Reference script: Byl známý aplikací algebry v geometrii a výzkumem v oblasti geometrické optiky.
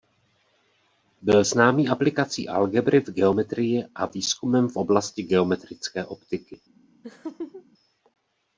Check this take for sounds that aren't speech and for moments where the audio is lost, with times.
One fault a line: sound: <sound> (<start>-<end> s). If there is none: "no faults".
sound: laugh (7.0-7.7 s)